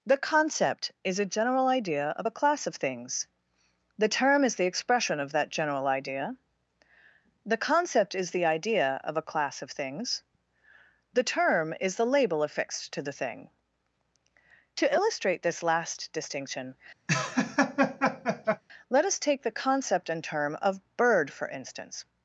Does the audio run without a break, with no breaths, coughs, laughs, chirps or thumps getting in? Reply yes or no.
no